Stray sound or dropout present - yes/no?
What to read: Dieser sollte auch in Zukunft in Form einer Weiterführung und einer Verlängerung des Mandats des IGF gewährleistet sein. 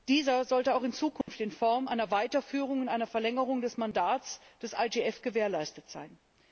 yes